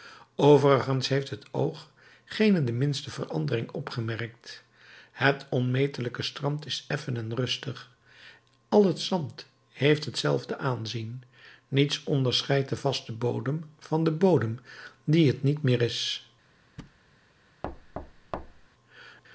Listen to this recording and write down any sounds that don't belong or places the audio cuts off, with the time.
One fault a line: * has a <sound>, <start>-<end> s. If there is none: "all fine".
* has a thud, 16.8-17.0 s
* has a thud, 17.6-18.7 s